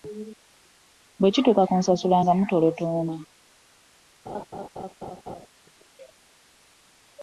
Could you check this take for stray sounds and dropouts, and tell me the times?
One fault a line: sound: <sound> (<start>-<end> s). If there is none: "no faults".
sound: laugh (4.3-5.5 s)